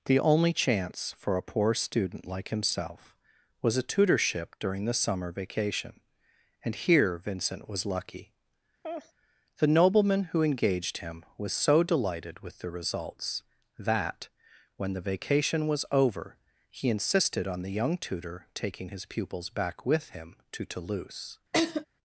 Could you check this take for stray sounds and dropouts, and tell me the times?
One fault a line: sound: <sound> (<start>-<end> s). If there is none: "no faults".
sound: laugh (8.8-9.1 s)
sound: laugh (21.5-21.9 s)